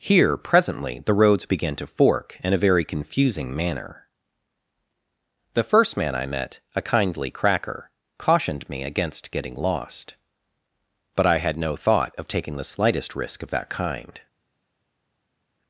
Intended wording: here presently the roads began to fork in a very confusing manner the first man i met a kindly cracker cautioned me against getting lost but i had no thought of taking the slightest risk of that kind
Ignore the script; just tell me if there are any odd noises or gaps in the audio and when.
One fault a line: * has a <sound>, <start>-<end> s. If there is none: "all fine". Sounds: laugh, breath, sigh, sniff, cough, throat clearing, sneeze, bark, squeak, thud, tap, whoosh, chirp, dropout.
all fine